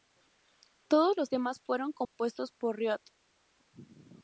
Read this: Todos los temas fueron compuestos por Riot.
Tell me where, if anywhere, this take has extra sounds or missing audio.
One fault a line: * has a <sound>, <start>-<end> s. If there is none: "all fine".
* has a dropout, 2.0-2.2 s